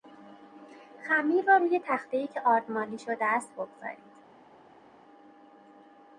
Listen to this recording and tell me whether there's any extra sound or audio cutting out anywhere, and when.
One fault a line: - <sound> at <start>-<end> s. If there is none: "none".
none